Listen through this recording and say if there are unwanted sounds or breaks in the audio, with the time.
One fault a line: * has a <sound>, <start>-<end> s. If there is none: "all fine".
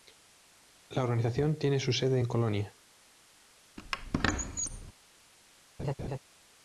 * has a squeak, 3.8-4.9 s
* has a laugh, 5.8-6.2 s